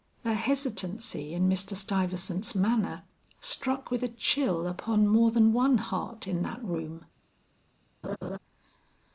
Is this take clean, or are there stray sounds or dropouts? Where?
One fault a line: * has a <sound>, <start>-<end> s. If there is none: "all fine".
* has a laugh, 8.0-8.4 s